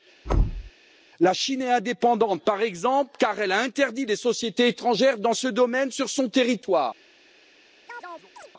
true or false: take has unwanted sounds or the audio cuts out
true